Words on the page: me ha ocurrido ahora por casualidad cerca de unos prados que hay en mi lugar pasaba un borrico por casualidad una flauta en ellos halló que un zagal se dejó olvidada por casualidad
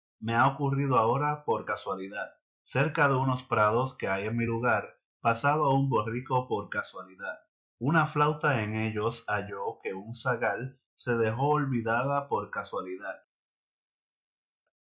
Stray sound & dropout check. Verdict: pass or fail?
pass